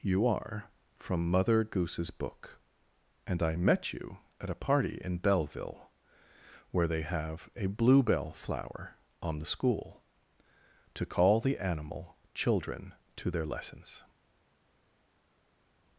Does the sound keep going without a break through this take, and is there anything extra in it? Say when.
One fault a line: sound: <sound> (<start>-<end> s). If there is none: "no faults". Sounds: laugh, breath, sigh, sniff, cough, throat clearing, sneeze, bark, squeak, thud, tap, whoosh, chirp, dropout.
no faults